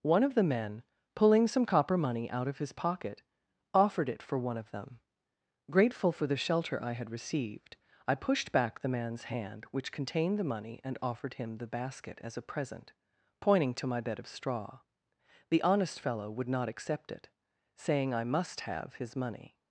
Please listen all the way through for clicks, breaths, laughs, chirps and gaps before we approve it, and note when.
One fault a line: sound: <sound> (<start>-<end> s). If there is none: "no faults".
no faults